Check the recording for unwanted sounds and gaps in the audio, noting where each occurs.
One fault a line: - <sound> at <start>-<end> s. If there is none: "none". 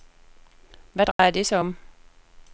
- dropout at 1.1-1.2 s